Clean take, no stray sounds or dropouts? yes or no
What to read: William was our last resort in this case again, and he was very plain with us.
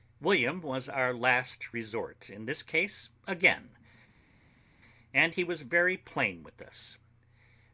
yes